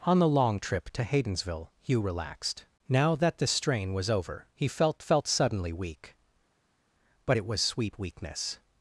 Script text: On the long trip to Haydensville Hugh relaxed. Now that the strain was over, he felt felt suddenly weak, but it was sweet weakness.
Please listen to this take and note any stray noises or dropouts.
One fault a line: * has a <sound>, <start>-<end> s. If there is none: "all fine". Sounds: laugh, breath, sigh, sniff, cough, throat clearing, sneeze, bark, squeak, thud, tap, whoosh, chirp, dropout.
all fine